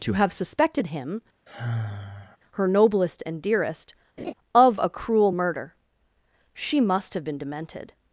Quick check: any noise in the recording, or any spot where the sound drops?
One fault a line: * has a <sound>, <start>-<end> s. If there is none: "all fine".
* has a sigh, 1.5-2.4 s
* has a laugh, 4.2-4.3 s